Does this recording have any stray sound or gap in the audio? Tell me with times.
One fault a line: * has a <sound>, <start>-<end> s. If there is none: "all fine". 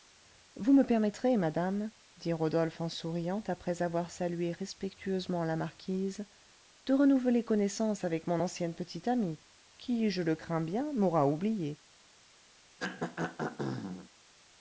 * has a throat clearing, 12.8-14.1 s